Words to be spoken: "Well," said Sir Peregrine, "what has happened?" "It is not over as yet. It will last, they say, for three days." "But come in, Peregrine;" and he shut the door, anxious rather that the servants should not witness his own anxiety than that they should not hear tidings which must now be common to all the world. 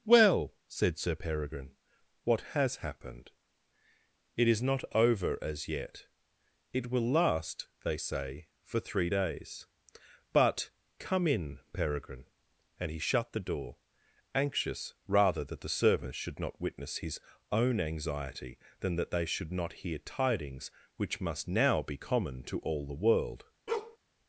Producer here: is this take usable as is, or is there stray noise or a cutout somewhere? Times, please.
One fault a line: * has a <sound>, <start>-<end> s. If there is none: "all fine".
* has a bark, 23.7-24.0 s